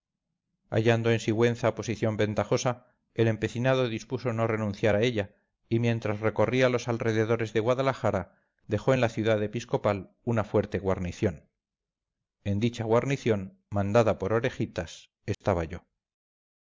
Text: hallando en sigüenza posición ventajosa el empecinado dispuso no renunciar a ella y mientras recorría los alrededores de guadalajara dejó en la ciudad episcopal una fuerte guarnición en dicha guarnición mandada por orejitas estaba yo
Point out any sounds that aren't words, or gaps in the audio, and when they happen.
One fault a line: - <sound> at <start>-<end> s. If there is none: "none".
- dropout at 15.3-15.4 s